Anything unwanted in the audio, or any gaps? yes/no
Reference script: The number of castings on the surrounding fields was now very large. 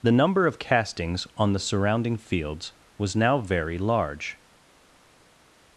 no